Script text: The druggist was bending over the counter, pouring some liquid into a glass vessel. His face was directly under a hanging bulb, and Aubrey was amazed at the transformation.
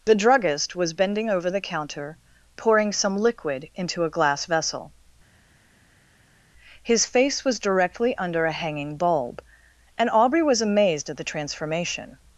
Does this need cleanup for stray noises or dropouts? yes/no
no